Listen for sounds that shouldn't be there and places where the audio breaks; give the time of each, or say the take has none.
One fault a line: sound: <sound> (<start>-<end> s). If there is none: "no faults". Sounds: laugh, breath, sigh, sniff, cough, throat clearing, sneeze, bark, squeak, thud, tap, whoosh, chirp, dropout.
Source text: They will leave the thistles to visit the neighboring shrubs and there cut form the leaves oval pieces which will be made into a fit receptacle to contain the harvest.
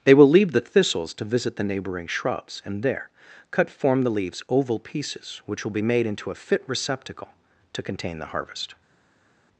no faults